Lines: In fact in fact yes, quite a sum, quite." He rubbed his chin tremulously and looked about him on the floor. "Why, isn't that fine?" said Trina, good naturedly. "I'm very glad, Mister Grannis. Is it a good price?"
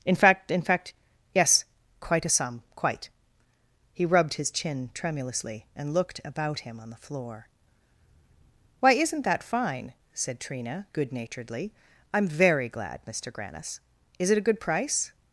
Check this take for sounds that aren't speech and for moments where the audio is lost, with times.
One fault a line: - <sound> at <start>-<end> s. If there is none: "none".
none